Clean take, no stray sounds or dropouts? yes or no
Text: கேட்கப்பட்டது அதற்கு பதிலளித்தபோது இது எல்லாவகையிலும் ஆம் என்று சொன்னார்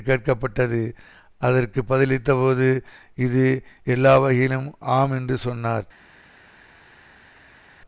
yes